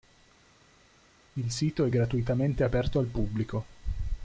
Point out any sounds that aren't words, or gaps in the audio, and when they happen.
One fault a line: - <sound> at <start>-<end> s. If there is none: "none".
none